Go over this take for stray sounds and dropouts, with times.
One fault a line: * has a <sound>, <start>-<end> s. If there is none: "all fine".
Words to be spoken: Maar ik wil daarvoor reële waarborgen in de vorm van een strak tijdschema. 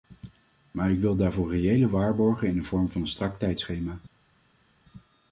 all fine